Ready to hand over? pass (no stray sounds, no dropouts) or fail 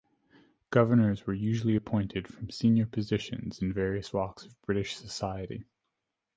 pass